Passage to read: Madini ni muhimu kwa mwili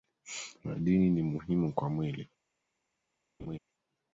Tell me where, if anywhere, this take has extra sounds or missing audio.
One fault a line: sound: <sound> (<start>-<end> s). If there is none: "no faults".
sound: laugh (3.4-3.6 s)